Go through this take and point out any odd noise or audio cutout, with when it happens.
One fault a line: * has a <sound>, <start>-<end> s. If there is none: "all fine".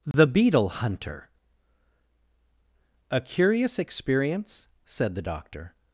* has a dropout, 0.1-0.1 s